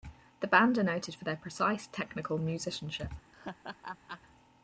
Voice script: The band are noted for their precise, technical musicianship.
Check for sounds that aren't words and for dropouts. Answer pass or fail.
fail